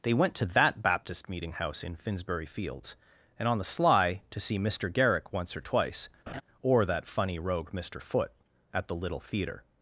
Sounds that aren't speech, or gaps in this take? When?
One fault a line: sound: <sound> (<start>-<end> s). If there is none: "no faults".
sound: laugh (6.3-6.4 s)